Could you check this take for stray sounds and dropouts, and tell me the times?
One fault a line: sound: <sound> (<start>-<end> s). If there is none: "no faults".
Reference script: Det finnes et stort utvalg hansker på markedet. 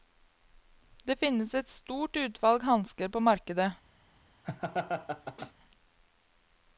sound: laugh (4.4-5.5 s)